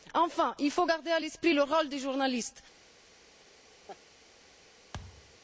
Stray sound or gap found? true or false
true